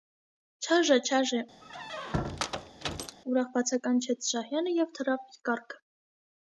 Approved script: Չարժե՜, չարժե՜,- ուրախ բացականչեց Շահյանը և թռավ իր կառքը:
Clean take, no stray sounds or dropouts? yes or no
no